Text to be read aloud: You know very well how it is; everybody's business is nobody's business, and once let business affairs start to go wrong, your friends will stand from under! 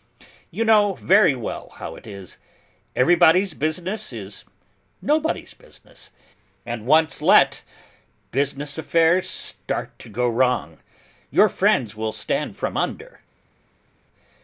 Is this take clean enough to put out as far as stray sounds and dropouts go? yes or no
yes